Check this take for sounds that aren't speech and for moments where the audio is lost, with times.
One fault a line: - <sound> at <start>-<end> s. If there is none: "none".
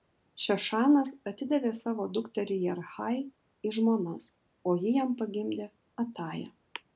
none